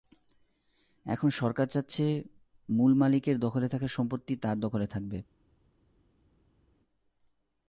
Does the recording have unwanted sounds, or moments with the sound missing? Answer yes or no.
no